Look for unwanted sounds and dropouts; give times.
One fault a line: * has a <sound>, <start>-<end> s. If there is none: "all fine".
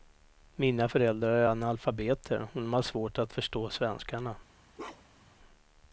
* has a bark, 4.8-5.4 s